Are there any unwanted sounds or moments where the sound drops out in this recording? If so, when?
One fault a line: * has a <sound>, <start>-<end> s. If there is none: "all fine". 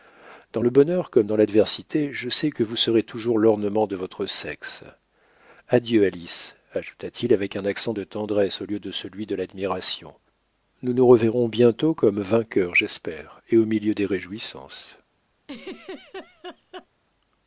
* has a laugh, 15.4-16.9 s